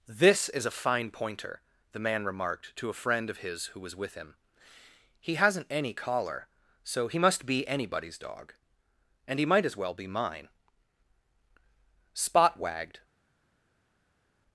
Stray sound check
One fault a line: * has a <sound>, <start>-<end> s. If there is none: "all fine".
all fine